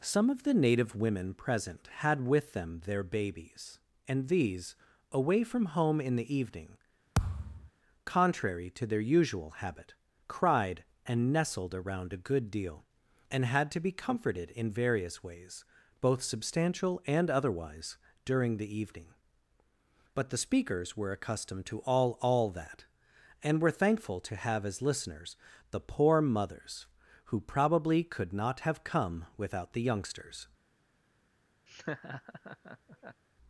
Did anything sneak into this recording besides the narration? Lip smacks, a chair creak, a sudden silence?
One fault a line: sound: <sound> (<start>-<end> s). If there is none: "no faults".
sound: thud (7.2-7.7 s)
sound: laugh (31.7-33.2 s)